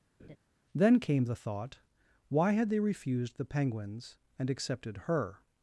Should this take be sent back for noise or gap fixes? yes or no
yes